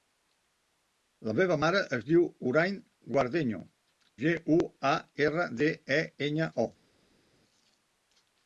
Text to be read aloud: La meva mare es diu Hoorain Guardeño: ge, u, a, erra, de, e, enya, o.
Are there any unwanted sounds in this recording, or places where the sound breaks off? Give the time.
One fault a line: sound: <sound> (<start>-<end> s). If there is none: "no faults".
no faults